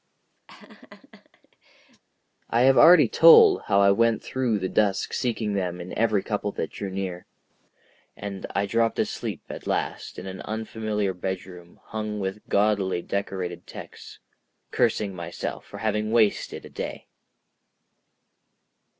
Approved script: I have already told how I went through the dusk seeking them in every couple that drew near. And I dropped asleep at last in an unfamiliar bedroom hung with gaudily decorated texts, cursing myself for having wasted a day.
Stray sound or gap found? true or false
true